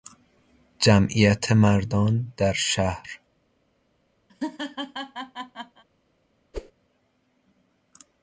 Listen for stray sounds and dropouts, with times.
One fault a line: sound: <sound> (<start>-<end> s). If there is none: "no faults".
sound: laugh (4.3-5.8 s)
sound: whoosh (6.5-6.7 s)